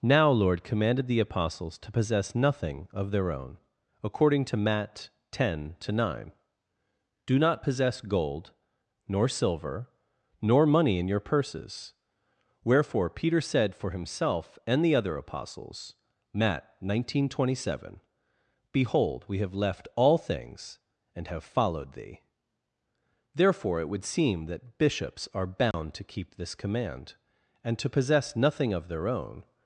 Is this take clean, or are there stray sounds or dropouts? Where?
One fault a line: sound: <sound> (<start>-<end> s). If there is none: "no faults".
sound: dropout (25.7-25.7 s)